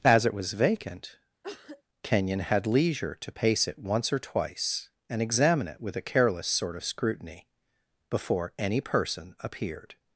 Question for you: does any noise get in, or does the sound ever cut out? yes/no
yes